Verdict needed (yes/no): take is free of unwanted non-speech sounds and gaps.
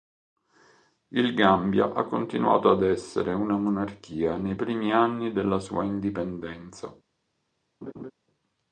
no